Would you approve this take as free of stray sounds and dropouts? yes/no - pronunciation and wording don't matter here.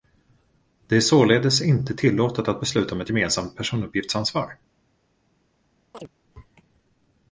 no